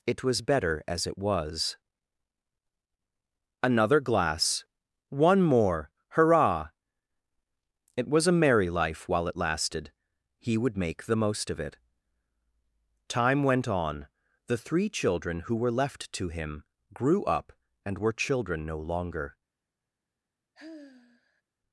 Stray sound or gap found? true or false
true